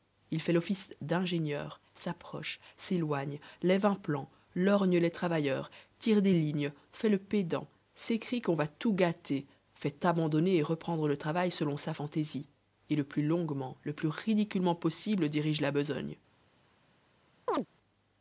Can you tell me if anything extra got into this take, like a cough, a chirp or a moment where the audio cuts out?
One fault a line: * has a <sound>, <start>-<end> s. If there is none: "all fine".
* has a chirp, 17.5-17.7 s